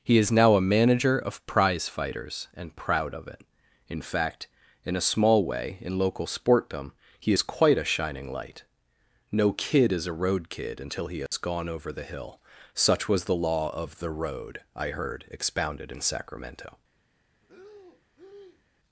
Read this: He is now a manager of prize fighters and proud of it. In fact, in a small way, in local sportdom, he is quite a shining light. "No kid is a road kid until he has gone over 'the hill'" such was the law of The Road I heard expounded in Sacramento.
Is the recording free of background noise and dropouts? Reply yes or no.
no